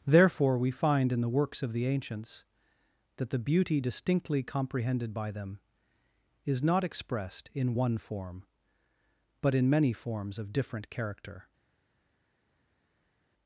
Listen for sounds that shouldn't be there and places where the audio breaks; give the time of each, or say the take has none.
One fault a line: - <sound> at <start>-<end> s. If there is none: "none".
none